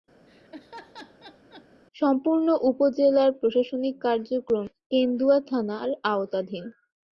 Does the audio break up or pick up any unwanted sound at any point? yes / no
yes